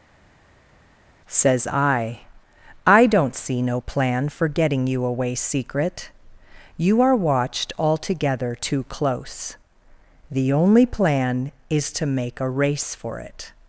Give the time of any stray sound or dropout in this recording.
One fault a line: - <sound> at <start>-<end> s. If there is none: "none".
none